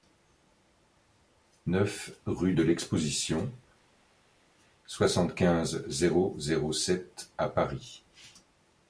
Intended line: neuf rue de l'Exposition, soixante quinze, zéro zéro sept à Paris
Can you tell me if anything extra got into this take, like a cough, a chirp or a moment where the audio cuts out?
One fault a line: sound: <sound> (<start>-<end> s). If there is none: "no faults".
no faults